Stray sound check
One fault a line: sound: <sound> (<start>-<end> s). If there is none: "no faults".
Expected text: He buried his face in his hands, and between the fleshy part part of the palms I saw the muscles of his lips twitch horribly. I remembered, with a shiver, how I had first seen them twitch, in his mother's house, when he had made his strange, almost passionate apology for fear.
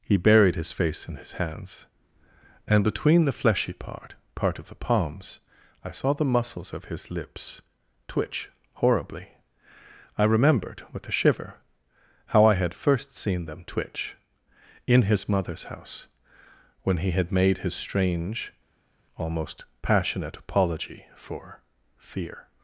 no faults